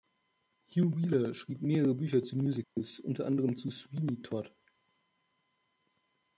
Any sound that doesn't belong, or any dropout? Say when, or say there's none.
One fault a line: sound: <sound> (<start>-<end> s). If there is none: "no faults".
sound: dropout (2.6-2.8 s)